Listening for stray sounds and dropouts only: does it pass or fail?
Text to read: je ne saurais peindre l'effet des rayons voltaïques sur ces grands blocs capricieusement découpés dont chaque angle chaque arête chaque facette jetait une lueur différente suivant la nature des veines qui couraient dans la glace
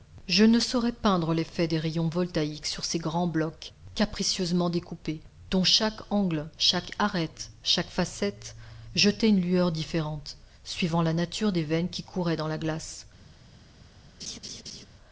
fail